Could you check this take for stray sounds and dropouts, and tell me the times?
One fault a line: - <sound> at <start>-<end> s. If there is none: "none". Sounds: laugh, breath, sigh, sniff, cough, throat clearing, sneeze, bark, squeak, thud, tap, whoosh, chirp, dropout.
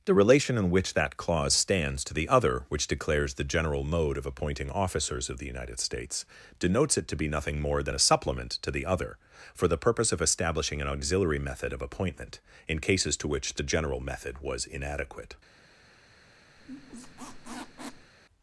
- squeak at 16.6-18.1 s